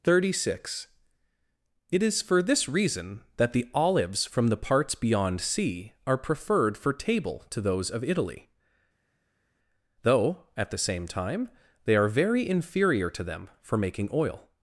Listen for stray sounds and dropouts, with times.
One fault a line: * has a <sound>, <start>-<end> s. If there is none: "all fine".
all fine